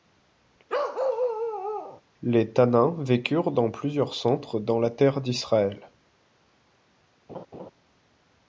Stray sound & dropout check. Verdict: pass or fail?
fail